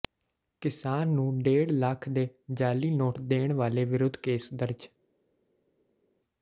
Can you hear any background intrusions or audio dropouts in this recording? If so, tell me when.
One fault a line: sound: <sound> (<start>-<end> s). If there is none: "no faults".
no faults